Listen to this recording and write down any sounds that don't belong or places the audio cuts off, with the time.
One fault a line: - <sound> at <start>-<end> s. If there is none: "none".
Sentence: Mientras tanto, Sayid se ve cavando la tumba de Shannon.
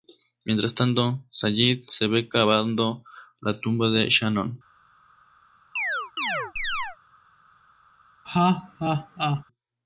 - chirp at 5.8-7.0 s
- laugh at 8.2-9.4 s